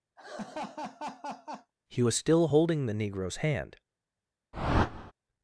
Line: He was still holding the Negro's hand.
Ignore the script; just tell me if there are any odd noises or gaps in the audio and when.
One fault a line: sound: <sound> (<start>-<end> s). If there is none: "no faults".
sound: laugh (0.2-1.7 s)
sound: whoosh (4.5-5.1 s)